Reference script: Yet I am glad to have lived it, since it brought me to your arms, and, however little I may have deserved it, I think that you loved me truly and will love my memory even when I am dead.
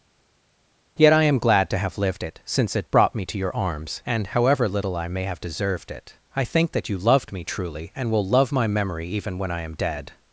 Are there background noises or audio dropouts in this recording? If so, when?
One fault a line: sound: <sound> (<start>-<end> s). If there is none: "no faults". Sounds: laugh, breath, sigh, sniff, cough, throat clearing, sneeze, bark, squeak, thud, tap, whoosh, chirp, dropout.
no faults